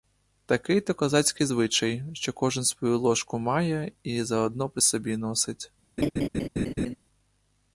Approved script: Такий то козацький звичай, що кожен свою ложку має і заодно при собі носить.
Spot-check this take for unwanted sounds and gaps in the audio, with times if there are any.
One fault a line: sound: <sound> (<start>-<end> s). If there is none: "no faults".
sound: laugh (6.0-7.0 s)